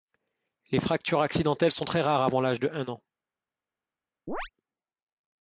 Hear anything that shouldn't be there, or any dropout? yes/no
yes